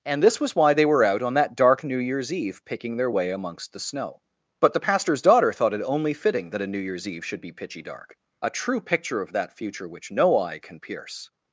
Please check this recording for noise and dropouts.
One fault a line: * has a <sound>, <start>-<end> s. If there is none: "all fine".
all fine